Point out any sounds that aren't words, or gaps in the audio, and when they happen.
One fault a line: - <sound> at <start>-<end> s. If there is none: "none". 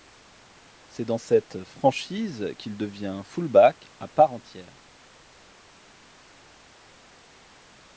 none